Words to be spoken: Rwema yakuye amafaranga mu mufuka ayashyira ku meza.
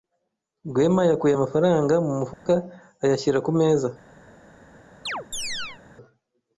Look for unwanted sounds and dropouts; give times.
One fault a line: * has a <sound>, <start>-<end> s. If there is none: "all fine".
* has a dropout, 2.3-2.5 s
* has a chirp, 5.1-5.8 s